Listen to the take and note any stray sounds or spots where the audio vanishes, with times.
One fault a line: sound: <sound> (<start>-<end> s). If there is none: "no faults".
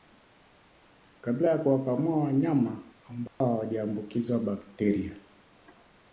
sound: dropout (3.3-3.4 s)